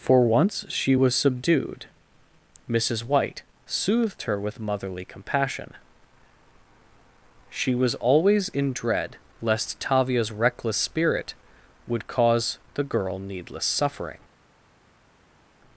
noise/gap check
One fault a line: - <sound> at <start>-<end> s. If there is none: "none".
none